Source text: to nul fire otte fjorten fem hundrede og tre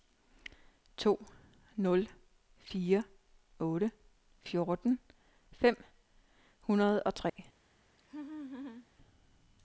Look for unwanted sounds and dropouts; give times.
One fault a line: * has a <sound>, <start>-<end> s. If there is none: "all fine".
* has a dropout, 7.3-7.4 s
* has a laugh, 8.0-8.9 s